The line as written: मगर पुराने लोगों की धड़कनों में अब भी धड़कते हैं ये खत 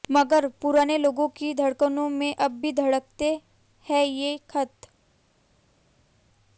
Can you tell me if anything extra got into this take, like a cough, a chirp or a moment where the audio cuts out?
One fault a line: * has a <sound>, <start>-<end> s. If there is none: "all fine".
all fine